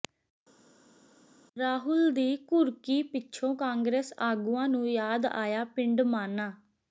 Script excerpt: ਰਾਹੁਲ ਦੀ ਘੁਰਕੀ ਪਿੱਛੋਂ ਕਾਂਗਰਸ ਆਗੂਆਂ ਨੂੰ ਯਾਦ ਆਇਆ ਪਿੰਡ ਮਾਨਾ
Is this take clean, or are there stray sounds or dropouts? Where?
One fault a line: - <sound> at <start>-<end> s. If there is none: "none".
none